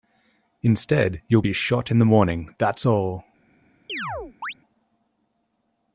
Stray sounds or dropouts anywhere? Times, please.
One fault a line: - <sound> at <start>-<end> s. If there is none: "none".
- chirp at 3.9-4.5 s